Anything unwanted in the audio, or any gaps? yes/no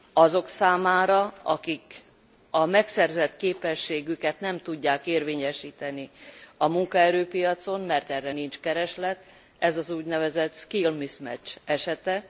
no